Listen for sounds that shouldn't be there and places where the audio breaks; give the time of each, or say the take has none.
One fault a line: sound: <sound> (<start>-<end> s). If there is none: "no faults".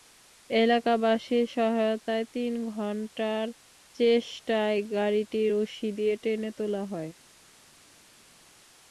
no faults